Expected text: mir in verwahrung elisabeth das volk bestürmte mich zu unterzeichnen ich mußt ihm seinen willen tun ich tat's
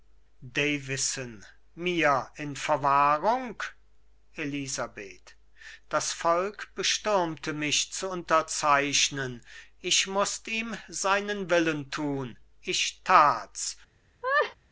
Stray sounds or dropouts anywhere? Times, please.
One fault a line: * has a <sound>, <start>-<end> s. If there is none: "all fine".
* has a laugh, 14.2-14.6 s